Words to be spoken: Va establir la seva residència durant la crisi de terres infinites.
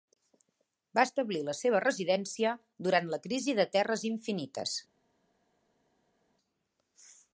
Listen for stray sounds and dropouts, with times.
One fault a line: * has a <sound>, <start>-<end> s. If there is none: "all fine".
all fine